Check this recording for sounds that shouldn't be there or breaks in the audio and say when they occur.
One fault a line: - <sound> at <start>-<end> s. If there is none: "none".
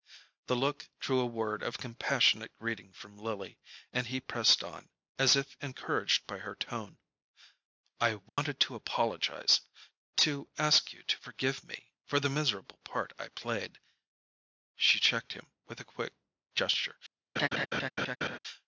- dropout at 8.3-8.4 s
- laugh at 17.4-18.4 s